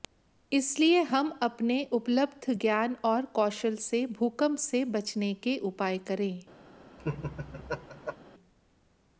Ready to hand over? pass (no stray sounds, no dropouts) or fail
fail